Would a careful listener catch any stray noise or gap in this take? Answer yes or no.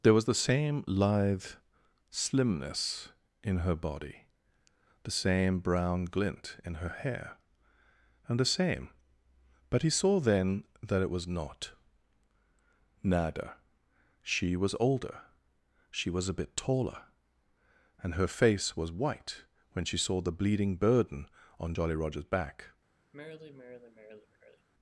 yes